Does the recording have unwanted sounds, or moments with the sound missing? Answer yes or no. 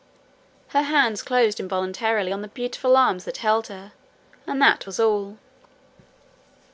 no